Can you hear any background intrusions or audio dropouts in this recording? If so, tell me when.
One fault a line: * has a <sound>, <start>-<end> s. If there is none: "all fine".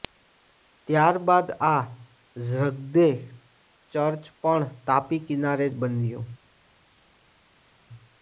all fine